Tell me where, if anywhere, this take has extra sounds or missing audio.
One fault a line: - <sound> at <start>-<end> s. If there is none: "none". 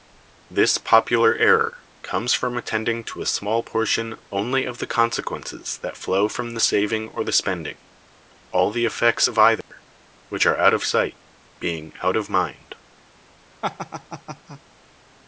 - dropout at 9.6-9.7 s
- laugh at 13.6-14.6 s